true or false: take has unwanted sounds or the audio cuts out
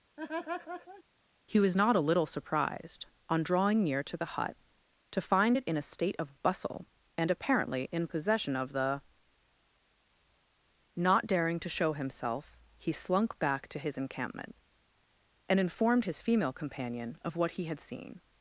true